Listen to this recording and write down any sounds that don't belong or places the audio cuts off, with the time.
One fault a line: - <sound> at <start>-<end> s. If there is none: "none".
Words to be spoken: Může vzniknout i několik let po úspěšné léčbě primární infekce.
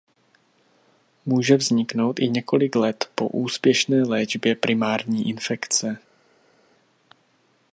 none